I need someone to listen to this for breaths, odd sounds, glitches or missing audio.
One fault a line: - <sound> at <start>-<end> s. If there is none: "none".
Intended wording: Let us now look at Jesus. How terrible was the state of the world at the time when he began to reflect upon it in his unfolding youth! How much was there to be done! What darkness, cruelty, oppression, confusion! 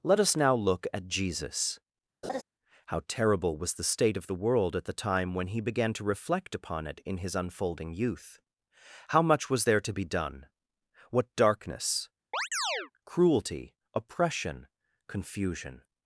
- laugh at 2.2-2.4 s
- chirp at 12.3-12.9 s